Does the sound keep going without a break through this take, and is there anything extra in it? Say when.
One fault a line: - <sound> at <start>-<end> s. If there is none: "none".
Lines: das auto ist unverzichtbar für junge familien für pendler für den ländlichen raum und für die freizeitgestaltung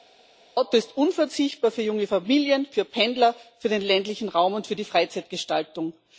none